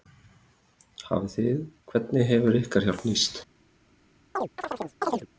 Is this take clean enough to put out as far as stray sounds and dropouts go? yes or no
no